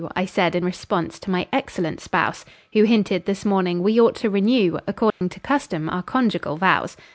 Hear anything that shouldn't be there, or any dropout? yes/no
yes